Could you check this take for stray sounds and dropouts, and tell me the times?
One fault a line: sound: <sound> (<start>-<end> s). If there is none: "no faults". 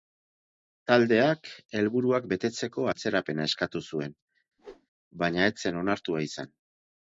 sound: whoosh (4.6-4.9 s)